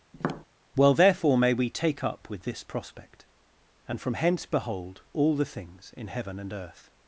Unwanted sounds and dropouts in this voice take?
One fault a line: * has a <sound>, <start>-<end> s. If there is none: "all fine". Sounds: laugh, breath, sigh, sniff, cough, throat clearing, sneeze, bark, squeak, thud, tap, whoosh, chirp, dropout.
* has a tap, 0.1-0.5 s